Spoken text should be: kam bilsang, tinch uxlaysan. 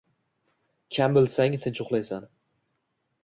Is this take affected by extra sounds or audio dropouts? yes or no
no